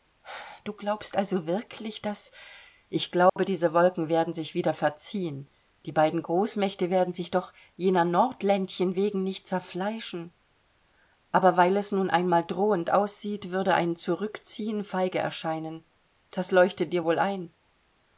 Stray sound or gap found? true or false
true